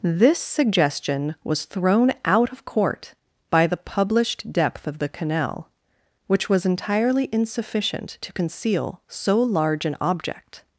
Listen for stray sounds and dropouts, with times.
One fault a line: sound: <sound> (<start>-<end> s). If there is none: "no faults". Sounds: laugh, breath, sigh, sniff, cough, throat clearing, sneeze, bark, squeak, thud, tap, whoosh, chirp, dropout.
no faults